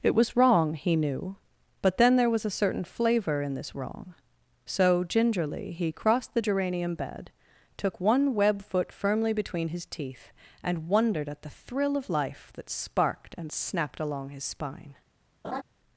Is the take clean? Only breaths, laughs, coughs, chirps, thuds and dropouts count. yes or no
no